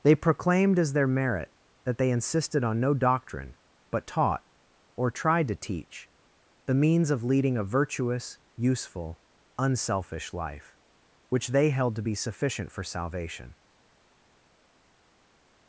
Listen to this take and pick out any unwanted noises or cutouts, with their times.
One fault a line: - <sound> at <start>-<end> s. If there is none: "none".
none